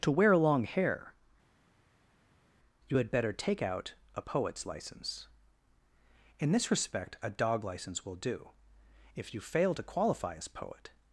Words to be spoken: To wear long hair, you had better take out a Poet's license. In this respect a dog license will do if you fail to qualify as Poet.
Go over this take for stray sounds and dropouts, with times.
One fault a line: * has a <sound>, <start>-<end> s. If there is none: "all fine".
all fine